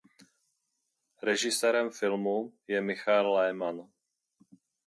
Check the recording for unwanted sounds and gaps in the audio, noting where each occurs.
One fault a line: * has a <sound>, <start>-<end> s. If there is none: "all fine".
all fine